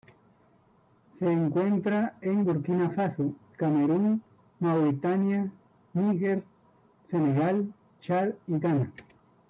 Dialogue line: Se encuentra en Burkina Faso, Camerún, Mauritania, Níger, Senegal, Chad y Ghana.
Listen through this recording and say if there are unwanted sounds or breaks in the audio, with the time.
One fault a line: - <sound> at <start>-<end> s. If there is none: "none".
none